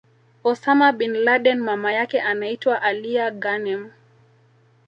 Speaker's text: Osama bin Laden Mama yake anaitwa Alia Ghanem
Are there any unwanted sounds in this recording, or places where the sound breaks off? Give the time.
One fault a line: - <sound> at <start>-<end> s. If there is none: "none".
none